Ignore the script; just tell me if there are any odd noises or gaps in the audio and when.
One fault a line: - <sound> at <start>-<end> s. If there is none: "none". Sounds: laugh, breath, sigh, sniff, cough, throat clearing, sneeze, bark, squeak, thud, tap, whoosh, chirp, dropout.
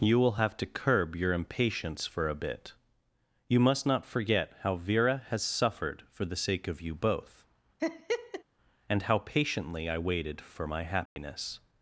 - laugh at 7.8-8.4 s
- dropout at 11.1-11.2 s